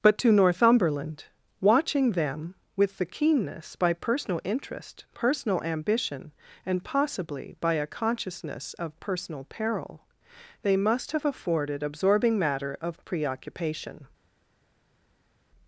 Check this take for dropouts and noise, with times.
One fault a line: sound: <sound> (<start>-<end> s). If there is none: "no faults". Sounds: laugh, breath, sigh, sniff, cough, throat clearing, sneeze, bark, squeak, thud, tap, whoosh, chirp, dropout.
no faults